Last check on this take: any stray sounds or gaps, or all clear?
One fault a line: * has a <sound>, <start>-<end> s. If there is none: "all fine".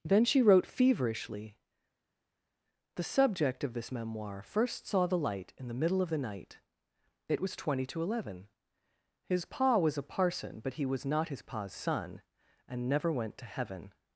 all fine